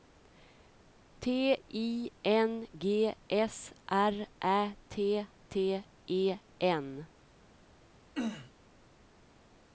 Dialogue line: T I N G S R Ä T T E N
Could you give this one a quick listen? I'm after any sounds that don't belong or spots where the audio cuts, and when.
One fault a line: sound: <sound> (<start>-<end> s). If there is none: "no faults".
sound: throat clearing (8.2-8.5 s)